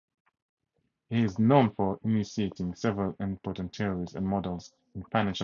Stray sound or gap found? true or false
false